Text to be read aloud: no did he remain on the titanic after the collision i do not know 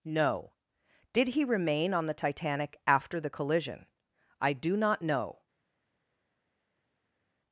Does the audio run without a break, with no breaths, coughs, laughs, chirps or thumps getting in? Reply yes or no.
yes